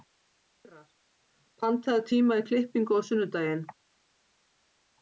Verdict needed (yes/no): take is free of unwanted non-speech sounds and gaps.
yes